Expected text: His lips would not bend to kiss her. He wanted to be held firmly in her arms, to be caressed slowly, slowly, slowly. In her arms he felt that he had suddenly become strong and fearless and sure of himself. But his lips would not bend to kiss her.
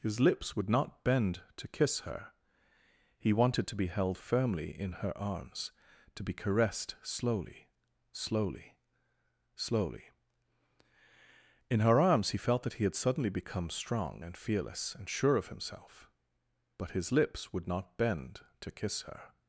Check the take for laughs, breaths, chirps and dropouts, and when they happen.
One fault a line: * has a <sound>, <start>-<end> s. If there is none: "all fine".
all fine